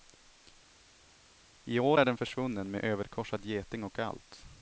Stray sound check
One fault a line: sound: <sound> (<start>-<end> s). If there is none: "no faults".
no faults